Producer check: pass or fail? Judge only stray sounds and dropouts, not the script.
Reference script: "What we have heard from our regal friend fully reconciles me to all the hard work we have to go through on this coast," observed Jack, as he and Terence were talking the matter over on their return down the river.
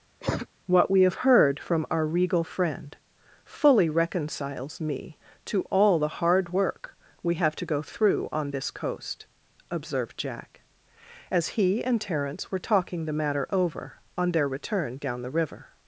fail